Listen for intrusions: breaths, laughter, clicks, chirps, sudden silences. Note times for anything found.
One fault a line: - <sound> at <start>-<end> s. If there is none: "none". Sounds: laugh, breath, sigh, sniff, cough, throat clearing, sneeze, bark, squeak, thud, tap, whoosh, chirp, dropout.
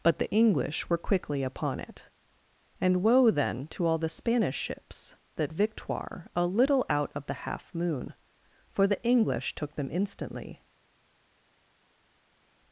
none